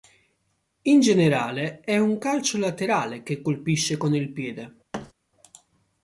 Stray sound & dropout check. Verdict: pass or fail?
fail